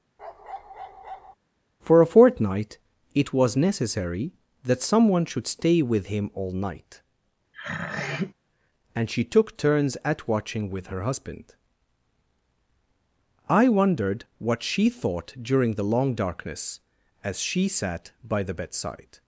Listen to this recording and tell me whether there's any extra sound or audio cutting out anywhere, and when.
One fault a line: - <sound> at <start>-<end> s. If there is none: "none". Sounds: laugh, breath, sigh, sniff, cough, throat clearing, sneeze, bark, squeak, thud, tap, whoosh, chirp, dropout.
- bark at 0.2-1.4 s
- throat clearing at 7.5-8.3 s